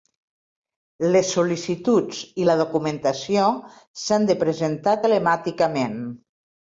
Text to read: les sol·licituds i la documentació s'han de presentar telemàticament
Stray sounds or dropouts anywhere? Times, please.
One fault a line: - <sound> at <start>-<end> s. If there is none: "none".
none